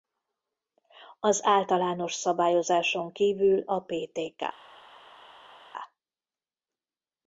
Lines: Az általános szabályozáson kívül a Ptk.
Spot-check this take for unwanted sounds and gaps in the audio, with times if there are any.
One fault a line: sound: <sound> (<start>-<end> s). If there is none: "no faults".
no faults